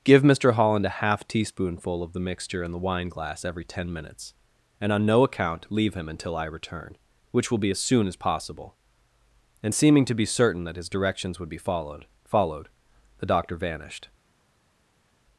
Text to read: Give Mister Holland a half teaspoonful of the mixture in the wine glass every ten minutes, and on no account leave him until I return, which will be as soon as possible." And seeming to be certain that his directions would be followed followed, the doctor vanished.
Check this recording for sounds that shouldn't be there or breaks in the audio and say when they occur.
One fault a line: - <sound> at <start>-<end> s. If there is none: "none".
none